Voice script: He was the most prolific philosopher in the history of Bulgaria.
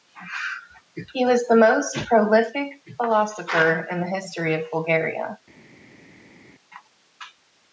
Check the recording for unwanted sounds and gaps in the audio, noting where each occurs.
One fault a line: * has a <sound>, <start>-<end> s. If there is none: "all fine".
all fine